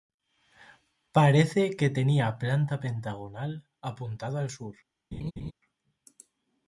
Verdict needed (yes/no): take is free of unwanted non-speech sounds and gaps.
no